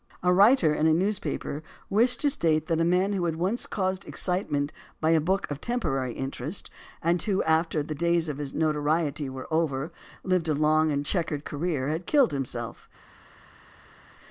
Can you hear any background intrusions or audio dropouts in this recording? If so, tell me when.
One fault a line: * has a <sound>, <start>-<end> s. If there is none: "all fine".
all fine